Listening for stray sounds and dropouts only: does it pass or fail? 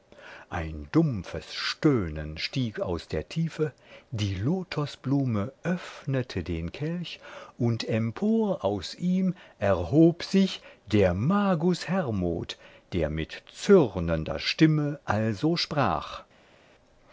pass